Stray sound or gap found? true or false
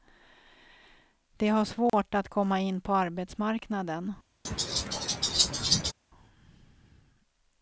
true